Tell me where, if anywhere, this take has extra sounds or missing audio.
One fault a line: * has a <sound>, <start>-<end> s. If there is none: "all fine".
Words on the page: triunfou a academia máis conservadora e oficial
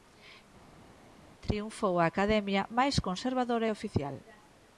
all fine